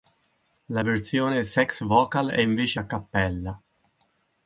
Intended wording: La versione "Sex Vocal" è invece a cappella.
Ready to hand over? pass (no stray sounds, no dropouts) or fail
pass